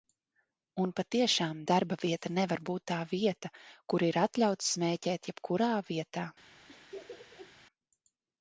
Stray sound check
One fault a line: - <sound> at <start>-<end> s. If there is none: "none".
- laugh at 6.7-7.5 s